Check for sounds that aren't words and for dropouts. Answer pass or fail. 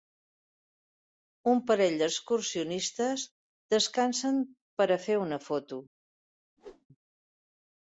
fail